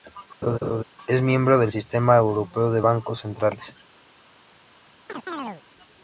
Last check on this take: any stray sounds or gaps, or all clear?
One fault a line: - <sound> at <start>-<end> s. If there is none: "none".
- laugh at 0.4-0.8 s
- chirp at 5.1-5.6 s